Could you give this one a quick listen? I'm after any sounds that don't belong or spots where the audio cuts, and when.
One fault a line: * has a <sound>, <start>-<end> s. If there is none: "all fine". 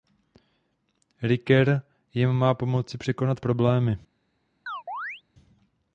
* has a chirp, 4.7-5.2 s